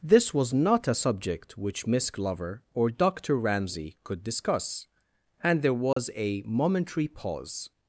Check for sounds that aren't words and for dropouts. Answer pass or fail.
fail